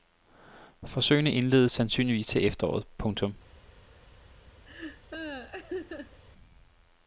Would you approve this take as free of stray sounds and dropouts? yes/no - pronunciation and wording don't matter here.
no